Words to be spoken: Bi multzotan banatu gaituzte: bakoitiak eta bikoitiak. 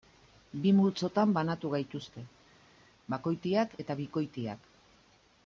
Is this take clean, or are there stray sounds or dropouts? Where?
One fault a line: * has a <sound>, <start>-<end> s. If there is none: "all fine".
all fine